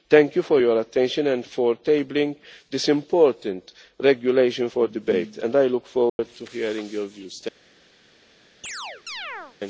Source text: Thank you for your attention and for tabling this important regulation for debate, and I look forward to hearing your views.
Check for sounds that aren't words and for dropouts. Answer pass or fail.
fail